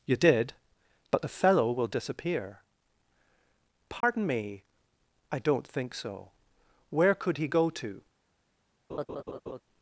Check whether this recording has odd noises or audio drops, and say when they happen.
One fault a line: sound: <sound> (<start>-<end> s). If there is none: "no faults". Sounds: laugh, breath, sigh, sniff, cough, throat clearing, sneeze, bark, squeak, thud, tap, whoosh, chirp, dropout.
sound: dropout (4.0-4.0 s)
sound: laugh (8.9-9.6 s)